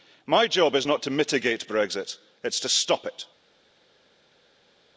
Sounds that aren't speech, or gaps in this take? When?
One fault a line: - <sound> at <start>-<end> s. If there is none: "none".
none